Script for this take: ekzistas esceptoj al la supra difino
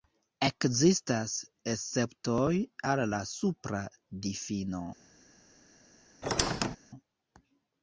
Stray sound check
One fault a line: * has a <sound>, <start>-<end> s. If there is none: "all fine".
* has a squeak, 6.2-6.8 s